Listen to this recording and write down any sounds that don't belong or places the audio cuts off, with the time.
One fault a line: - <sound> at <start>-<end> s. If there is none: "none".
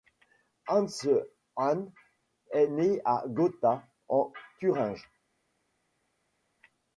none